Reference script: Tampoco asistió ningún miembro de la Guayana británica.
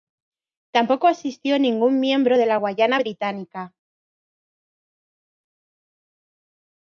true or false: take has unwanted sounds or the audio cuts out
false